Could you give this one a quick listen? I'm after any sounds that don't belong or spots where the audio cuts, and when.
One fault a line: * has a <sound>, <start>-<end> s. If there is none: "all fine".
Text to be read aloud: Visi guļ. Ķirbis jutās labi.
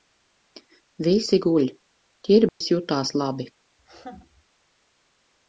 * has a dropout, 2.5-2.6 s
* has a laugh, 3.8-4.4 s